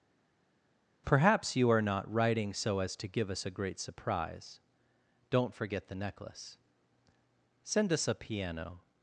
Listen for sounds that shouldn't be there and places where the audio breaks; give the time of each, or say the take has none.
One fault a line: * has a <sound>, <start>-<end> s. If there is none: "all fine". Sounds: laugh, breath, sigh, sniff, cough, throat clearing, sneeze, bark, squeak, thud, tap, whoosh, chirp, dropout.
all fine